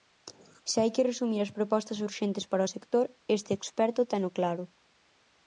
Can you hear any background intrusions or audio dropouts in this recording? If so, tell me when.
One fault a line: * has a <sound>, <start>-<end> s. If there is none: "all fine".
all fine